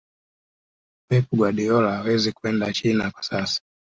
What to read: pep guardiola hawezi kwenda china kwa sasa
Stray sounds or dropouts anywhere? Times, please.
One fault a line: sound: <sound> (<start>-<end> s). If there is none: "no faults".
no faults